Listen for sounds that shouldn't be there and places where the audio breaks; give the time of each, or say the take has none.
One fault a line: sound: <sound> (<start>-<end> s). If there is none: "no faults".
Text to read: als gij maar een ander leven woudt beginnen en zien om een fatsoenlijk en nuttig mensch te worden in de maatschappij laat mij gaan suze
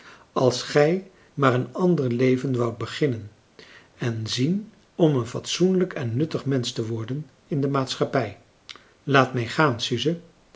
no faults